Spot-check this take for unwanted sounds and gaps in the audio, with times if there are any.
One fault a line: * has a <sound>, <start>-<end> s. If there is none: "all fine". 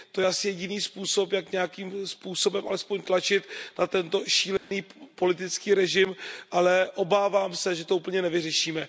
* has a dropout, 4.6-4.7 s